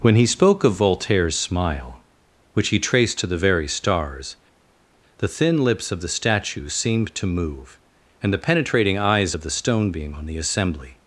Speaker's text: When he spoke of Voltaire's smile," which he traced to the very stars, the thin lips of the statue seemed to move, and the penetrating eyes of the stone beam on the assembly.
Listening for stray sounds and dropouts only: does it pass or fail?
pass